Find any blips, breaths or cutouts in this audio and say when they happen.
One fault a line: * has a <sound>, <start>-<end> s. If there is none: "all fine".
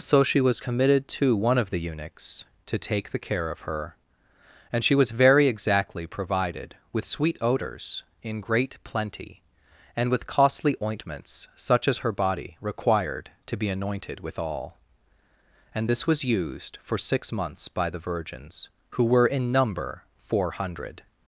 all fine